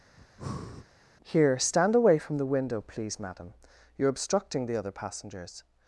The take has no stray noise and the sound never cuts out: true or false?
false